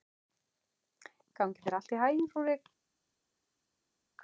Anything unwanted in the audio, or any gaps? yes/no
no